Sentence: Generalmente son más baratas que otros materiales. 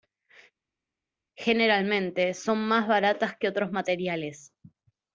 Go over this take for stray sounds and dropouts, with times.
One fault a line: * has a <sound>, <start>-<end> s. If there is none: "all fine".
all fine